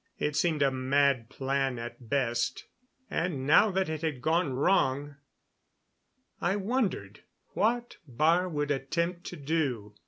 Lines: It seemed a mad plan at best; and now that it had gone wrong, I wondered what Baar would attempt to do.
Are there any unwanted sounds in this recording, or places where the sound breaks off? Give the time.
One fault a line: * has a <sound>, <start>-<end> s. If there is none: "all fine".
all fine